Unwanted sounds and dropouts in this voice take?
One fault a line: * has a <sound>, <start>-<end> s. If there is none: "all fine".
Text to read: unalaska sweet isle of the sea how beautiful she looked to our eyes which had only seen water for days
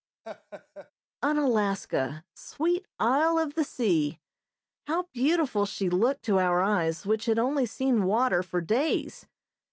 * has a laugh, 0.2-0.9 s